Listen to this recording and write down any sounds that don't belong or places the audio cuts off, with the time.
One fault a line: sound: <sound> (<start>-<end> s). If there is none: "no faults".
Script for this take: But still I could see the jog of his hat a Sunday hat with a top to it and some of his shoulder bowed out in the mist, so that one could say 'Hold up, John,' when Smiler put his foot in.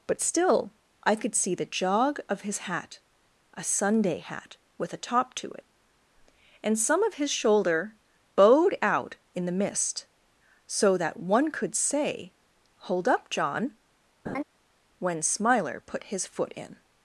sound: laugh (14.3-14.4 s)